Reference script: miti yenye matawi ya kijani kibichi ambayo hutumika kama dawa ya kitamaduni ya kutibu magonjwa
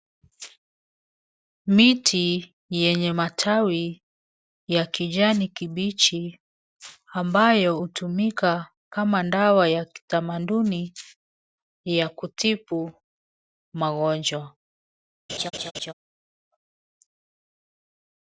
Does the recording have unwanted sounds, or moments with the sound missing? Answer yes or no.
yes